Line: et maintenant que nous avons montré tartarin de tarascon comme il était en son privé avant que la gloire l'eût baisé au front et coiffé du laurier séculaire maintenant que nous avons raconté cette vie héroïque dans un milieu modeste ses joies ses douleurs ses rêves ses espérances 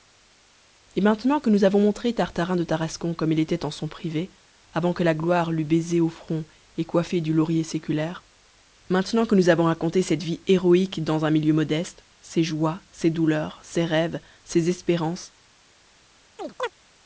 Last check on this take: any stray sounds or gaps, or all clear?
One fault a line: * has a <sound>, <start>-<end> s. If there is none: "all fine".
* has a chirp, 16.4-16.7 s